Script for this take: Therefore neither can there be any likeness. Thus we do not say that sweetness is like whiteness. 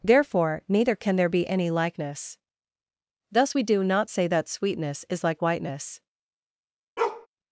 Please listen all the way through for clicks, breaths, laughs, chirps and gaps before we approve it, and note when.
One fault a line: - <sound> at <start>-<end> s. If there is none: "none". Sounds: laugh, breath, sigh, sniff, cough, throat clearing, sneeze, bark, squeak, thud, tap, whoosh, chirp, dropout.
- bark at 7.0-7.3 s